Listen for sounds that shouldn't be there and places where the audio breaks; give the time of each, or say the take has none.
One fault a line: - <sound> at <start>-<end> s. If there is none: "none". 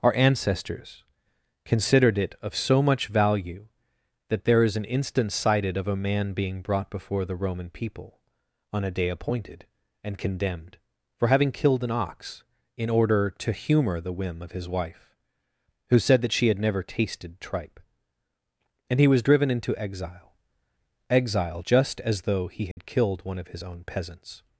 - dropout at 22.7-22.8 s